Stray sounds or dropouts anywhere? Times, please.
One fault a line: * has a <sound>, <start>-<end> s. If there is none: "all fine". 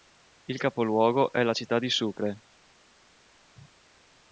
all fine